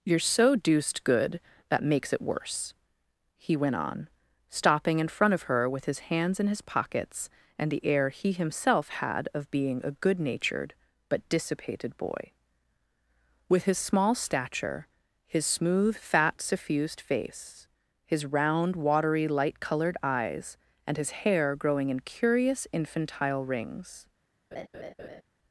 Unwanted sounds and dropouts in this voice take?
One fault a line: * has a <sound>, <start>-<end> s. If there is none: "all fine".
* has a laugh, 24.5-25.2 s